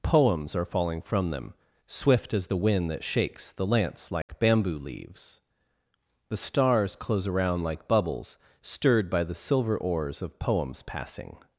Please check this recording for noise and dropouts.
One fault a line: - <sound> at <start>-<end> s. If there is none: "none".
- dropout at 4.2-4.3 s